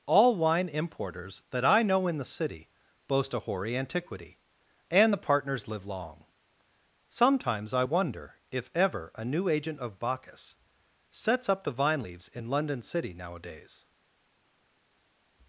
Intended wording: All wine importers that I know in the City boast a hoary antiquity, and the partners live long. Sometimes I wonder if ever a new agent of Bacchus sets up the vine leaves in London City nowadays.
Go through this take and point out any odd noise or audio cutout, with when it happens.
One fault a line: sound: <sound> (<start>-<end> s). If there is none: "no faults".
no faults